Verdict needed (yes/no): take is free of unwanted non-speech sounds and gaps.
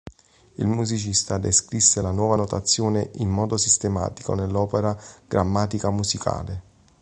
yes